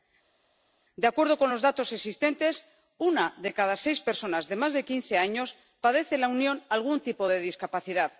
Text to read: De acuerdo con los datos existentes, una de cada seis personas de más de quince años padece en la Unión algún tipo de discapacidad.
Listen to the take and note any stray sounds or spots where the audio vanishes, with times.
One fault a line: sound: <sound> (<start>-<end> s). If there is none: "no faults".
no faults